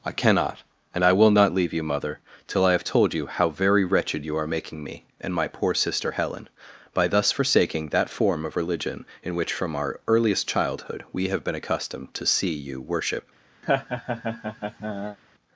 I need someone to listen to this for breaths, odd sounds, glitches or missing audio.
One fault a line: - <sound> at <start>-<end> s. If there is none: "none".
- laugh at 13.6-15.2 s